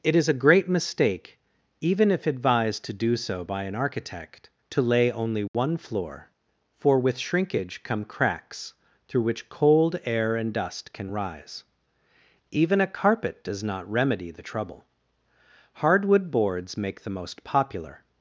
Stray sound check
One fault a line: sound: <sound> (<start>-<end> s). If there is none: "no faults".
sound: dropout (5.5-5.5 s)